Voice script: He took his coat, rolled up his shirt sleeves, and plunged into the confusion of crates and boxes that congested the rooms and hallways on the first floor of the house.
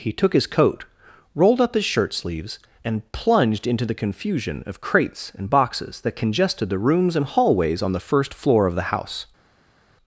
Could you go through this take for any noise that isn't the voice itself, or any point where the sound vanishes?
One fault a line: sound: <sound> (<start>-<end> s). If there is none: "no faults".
no faults